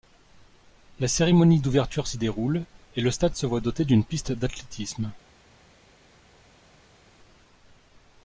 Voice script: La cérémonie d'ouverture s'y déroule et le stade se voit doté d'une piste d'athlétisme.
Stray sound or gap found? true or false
false